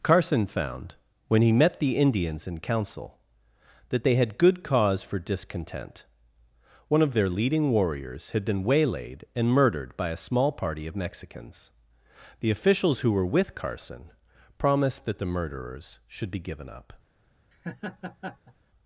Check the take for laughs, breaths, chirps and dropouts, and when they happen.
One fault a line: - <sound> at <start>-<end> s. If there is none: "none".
- laugh at 17.5-18.5 s